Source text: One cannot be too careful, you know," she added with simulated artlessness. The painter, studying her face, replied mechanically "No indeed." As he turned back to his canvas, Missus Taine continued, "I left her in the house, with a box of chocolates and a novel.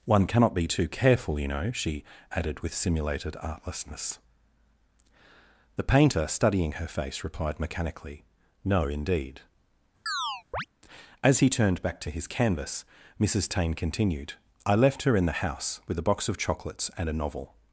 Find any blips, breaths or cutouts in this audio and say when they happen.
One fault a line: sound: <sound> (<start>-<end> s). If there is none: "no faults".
sound: chirp (10.1-10.7 s)